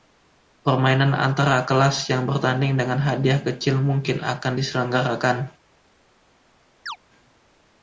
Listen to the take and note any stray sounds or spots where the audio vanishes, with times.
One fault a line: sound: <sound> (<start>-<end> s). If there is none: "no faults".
sound: chirp (6.9-7.0 s)